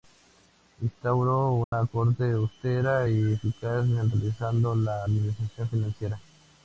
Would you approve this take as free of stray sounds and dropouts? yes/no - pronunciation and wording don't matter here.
no